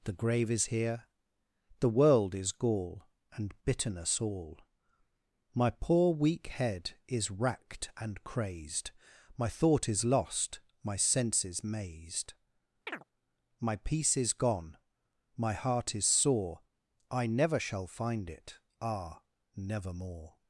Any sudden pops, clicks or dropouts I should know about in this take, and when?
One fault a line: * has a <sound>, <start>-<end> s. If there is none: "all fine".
* has a chirp, 12.9-13.0 s